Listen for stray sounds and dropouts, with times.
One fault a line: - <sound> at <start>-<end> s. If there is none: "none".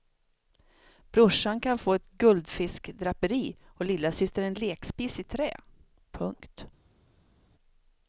none